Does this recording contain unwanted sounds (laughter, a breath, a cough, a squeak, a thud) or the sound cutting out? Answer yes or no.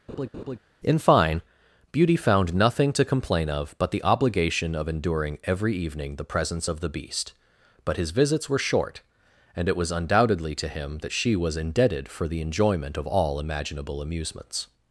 yes